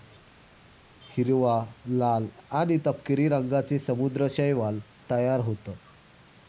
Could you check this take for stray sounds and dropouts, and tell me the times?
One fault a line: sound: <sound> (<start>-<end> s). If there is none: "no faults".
no faults